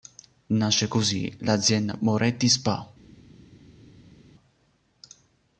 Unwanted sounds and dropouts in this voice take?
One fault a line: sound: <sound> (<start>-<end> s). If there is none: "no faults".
no faults